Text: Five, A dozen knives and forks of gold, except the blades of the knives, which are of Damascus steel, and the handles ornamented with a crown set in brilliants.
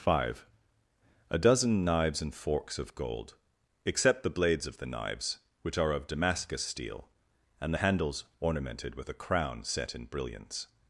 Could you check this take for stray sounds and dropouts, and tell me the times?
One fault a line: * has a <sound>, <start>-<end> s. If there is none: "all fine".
all fine